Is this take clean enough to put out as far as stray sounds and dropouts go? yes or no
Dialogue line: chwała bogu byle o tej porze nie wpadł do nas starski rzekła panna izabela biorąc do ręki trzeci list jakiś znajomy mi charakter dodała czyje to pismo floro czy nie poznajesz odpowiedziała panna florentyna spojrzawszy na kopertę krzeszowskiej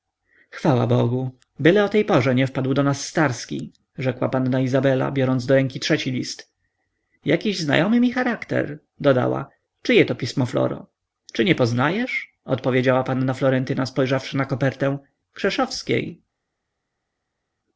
yes